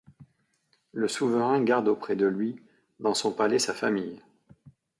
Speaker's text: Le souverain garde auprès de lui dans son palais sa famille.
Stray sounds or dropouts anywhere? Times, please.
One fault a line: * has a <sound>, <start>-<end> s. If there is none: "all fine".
all fine